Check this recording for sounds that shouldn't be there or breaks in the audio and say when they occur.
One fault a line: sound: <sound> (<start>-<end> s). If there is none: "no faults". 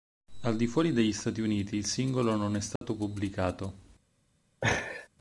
sound: dropout (2.8-2.8 s)
sound: laugh (4.6-5.1 s)